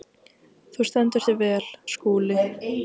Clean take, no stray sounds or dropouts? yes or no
yes